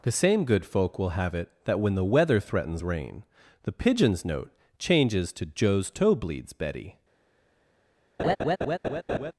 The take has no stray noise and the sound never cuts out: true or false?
false